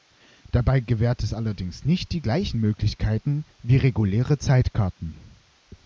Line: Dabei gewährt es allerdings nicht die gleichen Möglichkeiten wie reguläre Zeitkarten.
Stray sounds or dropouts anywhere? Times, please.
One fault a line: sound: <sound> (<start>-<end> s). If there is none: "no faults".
no faults